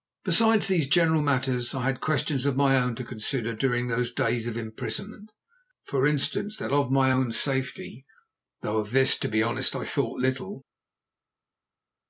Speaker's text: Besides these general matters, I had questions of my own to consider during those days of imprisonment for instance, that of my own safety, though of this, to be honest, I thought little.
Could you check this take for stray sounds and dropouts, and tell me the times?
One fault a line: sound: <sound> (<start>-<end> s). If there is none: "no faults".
no faults